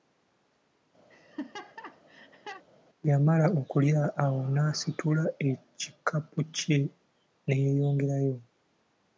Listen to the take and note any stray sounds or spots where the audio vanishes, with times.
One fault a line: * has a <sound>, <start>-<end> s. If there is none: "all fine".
* has a laugh, 1.1-2.6 s